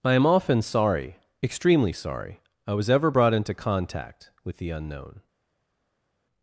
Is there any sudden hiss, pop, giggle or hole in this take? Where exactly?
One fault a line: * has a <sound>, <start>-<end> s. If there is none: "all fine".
all fine